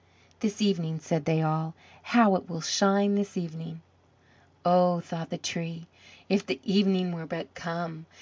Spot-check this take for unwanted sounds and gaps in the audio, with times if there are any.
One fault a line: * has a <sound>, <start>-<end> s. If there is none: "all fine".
all fine